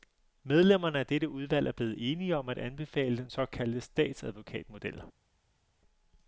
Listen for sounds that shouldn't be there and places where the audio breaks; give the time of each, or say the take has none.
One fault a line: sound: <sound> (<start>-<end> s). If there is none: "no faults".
no faults